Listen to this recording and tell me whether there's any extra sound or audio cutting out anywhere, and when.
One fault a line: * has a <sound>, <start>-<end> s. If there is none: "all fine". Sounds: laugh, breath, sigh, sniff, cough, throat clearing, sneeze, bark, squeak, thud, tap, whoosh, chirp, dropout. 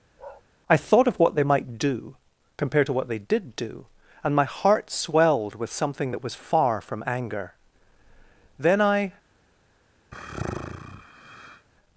* has a bark, 0.2-0.4 s
* has a sigh, 10.1-11.7 s